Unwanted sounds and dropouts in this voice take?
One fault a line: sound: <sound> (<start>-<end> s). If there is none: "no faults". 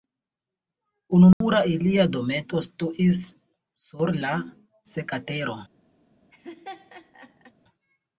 sound: dropout (1.3-1.4 s)
sound: laugh (6.3-7.5 s)